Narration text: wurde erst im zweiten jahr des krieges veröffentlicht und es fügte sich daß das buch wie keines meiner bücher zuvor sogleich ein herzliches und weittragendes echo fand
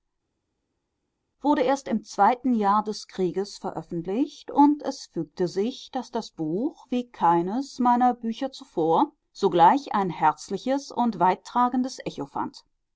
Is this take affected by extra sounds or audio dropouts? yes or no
no